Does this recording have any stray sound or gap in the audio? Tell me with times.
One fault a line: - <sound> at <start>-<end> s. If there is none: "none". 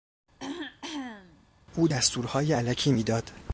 - throat clearing at 0.4-1.5 s